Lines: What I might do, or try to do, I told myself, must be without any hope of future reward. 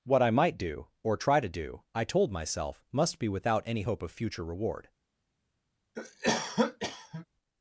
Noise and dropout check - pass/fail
fail